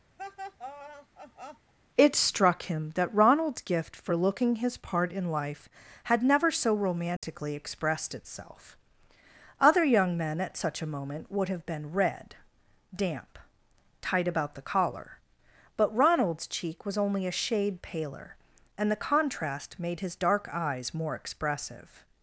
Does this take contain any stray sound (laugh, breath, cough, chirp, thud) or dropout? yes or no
yes